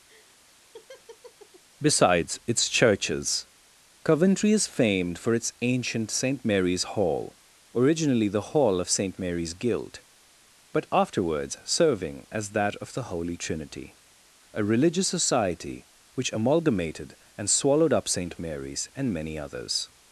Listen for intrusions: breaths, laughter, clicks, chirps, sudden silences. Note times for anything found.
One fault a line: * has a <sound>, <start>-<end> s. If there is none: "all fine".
* has a laugh, 0.1-1.6 s